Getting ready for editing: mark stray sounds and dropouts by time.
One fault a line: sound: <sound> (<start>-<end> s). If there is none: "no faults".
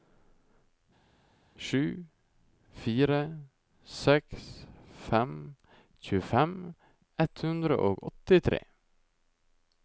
no faults